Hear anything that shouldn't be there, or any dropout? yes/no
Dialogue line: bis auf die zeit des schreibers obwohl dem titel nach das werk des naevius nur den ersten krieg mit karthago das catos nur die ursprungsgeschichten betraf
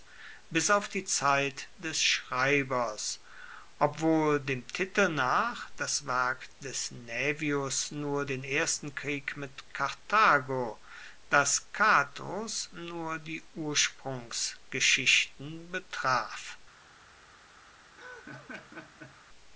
yes